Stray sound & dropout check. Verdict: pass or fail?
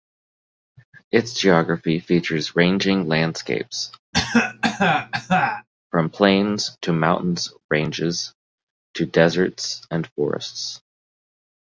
fail